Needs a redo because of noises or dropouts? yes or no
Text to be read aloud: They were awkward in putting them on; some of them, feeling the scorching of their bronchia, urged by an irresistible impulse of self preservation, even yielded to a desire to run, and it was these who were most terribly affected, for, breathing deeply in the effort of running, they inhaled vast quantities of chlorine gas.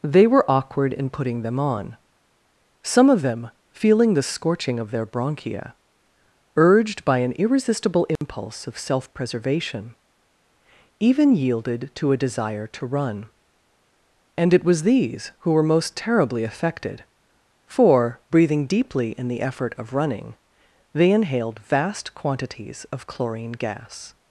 yes